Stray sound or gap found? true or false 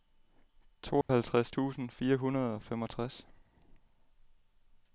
true